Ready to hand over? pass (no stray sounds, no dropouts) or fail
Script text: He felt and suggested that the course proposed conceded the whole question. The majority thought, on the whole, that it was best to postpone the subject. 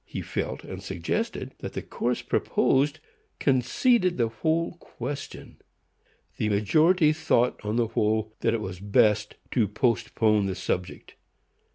pass